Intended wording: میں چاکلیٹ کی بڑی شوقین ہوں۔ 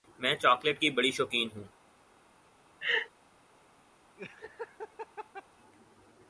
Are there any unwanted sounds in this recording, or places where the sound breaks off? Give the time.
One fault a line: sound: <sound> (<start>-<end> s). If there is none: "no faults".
sound: laugh (2.8-3.1 s)
sound: laugh (4.2-5.5 s)